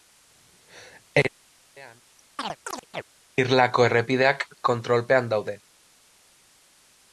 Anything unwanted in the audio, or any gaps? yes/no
yes